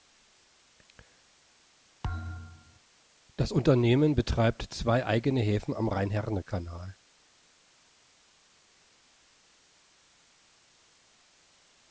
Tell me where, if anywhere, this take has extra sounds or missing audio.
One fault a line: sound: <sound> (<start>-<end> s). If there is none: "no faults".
sound: thud (2.0-2.8 s)